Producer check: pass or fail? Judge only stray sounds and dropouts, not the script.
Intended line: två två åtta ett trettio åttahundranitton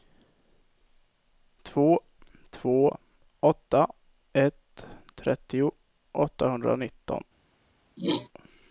fail